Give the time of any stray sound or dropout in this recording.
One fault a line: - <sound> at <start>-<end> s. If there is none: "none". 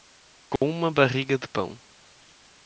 - dropout at 0.6-0.6 s